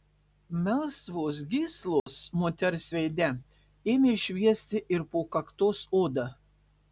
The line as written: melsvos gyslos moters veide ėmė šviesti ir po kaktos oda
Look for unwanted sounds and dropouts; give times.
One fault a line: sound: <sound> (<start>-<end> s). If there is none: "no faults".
sound: dropout (2.0-2.1 s)